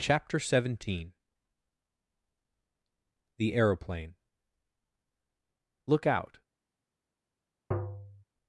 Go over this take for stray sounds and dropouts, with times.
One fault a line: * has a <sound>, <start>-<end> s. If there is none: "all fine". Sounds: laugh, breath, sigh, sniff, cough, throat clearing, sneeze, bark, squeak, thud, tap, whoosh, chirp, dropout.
* has a tap, 7.7-8.2 s